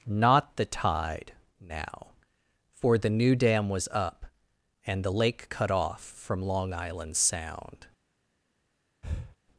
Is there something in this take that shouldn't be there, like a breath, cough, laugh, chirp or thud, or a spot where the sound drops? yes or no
yes